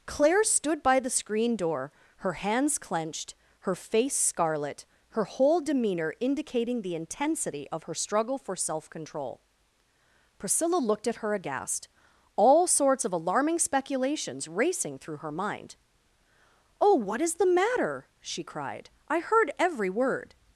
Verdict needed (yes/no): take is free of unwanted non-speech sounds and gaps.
yes